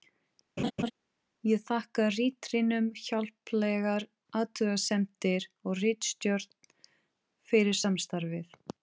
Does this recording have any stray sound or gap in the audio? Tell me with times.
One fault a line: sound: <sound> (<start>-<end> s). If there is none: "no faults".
sound: laugh (0.6-0.9 s)